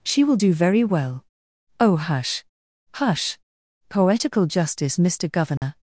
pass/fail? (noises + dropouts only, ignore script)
fail